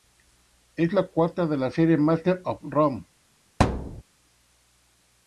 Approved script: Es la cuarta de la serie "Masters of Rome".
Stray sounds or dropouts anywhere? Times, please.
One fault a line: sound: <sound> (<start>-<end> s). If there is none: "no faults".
sound: thud (3.6-4.0 s)